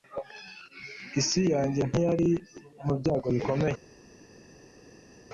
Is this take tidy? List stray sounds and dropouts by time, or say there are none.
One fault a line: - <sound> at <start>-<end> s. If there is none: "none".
none